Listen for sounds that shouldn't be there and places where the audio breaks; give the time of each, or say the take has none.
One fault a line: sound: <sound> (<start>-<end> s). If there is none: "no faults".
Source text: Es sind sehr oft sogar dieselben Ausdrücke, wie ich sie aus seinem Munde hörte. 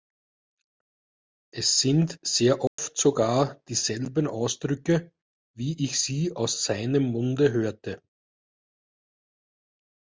sound: dropout (2.7-2.8 s)